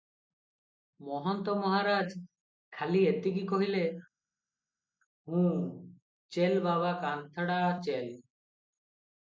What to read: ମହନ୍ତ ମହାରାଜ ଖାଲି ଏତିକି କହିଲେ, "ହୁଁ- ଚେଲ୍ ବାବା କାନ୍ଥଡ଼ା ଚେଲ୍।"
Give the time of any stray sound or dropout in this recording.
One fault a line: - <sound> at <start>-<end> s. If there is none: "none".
none